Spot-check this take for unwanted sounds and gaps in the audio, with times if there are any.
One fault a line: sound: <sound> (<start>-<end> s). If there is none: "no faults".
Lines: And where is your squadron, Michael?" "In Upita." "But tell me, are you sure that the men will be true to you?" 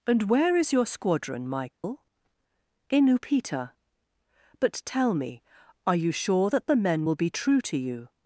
sound: dropout (1.7-1.8 s)